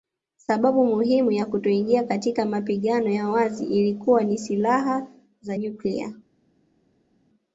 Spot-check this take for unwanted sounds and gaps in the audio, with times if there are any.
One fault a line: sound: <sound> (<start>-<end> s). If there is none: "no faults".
no faults